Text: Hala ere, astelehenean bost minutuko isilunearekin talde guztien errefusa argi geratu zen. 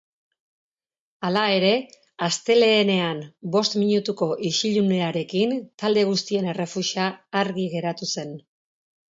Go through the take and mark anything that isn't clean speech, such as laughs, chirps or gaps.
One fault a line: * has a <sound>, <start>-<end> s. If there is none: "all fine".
all fine